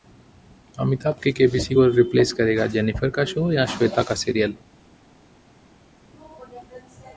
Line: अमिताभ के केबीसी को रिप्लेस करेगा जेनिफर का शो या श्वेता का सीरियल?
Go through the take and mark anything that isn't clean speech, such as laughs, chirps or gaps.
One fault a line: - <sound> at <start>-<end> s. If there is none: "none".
none